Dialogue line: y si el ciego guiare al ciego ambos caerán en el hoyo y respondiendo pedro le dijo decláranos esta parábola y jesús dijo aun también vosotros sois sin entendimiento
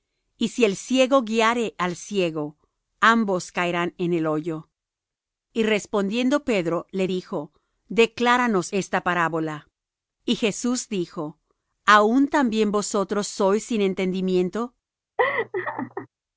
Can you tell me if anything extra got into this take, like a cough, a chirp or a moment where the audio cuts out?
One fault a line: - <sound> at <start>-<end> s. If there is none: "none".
- laugh at 15.2-16.1 s